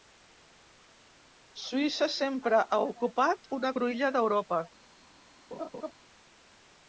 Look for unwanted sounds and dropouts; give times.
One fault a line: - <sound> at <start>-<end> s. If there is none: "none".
- laugh at 5.5-5.9 s